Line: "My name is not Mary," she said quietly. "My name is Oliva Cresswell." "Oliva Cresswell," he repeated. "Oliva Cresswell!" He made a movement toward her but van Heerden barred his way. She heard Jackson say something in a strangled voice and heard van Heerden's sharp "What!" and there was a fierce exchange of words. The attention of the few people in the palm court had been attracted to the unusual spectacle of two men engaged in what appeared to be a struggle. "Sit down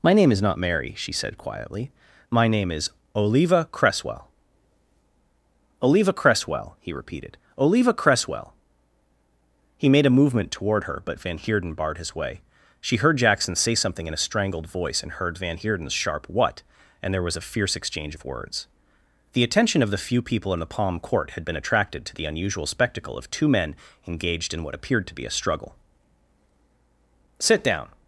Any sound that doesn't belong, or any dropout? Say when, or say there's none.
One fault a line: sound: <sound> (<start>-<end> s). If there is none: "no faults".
no faults